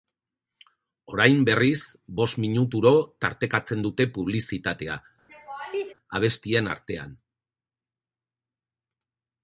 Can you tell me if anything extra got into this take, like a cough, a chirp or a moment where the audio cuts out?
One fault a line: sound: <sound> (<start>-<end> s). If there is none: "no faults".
sound: laugh (5.3-5.9 s)